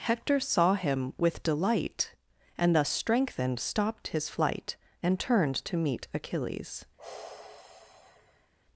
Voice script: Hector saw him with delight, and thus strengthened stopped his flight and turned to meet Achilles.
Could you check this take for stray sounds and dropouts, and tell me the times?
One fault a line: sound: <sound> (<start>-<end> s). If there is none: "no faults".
sound: sigh (7.0-8.5 s)